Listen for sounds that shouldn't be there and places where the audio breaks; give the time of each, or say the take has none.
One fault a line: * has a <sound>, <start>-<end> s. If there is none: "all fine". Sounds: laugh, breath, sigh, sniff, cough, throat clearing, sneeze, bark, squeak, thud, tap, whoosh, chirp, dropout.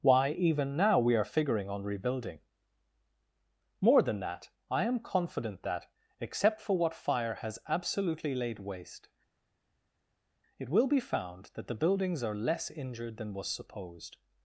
all fine